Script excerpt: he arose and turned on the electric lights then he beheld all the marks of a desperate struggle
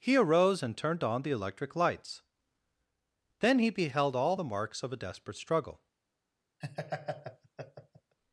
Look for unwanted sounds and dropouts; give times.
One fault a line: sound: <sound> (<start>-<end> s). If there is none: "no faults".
sound: laugh (6.6-8.2 s)